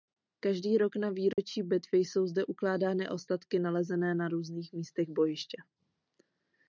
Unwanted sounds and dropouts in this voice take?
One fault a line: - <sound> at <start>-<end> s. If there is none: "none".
- dropout at 1.3-1.4 s